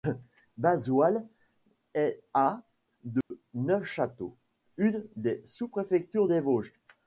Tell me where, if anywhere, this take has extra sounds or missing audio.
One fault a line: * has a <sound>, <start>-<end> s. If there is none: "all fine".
* has a dropout, 3.2-3.3 s